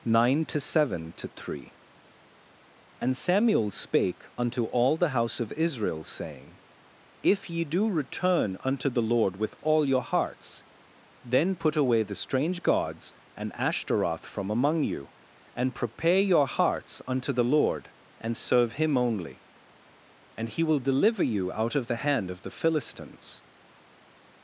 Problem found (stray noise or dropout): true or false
false